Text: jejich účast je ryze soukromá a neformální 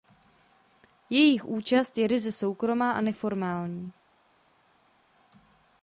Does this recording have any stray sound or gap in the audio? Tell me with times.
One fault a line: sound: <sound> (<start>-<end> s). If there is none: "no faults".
no faults